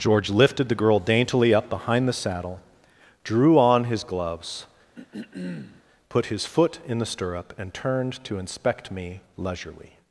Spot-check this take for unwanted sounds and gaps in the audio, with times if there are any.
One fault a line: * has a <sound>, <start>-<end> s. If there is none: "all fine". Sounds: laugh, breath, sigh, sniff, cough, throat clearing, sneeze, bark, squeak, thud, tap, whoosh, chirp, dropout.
* has a throat clearing, 4.9-5.8 s